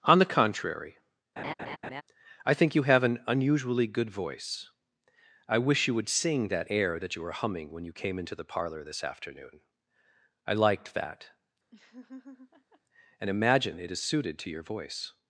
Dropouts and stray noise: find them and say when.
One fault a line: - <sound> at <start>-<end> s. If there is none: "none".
- laugh at 1.4-2.0 s
- laugh at 11.7-12.8 s